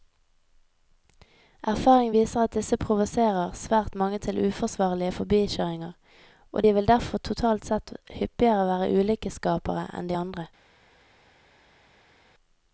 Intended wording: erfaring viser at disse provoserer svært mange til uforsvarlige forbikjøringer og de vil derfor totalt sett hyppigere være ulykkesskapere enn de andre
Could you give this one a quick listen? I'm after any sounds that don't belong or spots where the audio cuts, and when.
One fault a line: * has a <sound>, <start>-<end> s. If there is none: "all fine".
all fine